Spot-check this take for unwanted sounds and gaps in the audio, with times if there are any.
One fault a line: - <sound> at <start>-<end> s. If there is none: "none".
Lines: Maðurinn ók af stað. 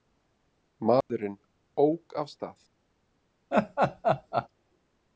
- dropout at 1.0-1.1 s
- laugh at 3.5-4.5 s